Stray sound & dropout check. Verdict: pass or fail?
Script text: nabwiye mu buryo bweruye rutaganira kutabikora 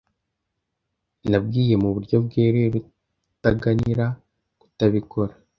pass